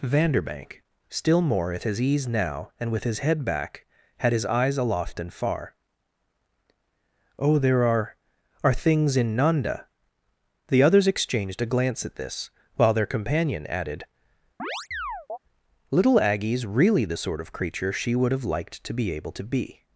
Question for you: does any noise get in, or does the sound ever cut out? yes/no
yes